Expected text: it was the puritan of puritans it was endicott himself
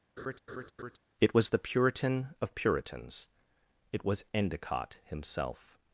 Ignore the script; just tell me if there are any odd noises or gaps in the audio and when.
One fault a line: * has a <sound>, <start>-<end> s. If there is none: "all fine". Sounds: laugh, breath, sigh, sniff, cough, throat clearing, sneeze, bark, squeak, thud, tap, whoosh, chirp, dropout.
* has a laugh, 0.2-1.0 s